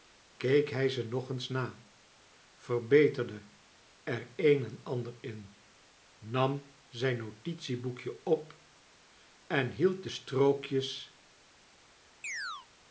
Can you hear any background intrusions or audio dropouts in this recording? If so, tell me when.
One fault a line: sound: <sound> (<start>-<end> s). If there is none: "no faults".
sound: chirp (12.2-12.7 s)